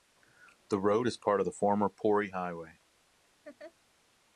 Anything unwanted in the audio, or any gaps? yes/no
yes